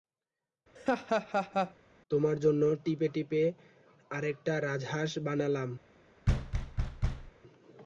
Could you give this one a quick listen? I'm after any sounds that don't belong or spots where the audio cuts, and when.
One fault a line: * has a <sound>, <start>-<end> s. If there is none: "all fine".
* has a laugh, 0.8-1.7 s
* has a thud, 6.3-7.3 s